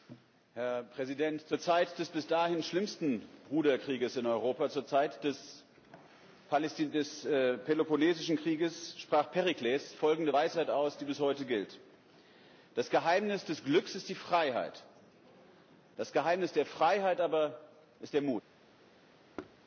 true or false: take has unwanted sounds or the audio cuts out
true